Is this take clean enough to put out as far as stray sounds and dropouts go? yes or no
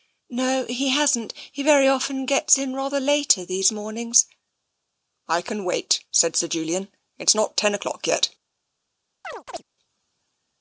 no